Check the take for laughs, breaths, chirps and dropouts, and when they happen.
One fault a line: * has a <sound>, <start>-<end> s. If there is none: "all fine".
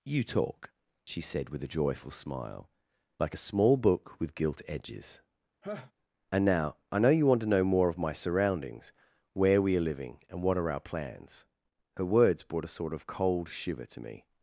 * has a laugh, 5.6-5.9 s